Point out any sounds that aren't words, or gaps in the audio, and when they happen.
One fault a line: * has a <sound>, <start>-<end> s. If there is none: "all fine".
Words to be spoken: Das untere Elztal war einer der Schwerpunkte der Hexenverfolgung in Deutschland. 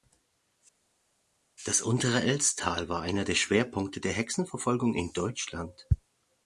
all fine